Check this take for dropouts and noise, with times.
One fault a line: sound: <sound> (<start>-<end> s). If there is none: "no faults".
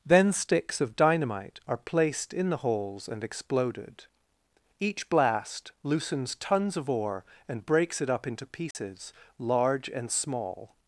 sound: dropout (8.7-8.8 s)